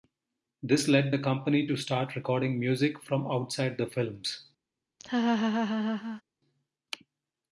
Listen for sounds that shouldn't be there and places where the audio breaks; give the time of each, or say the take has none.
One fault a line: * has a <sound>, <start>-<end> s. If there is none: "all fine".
* has a laugh, 5.0-6.2 s